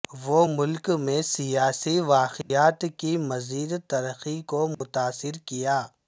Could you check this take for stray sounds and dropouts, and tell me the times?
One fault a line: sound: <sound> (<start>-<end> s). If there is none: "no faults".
sound: dropout (2.4-2.5 s)
sound: dropout (4.7-4.8 s)